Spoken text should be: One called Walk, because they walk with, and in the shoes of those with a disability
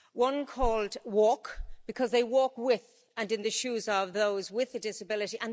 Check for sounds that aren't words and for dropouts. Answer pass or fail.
pass